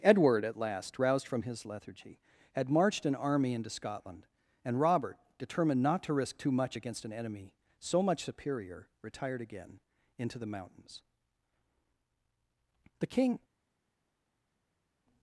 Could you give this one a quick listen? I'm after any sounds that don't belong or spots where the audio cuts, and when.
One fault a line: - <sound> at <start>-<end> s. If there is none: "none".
none